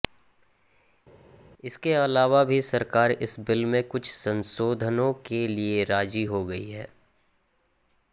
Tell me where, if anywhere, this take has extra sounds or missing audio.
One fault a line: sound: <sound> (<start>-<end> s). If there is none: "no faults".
no faults